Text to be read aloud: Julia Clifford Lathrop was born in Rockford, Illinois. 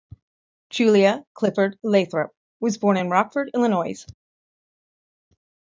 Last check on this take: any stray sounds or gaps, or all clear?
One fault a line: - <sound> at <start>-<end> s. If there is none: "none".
none